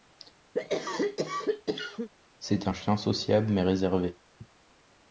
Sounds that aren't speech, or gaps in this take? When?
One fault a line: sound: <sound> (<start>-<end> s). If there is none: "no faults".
sound: cough (0.5-2.1 s)